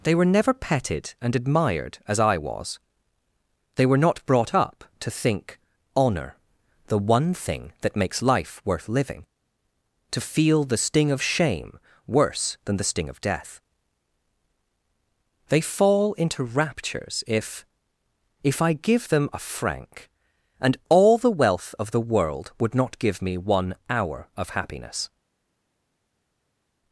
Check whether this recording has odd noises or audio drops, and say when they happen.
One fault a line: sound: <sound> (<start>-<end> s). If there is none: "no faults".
no faults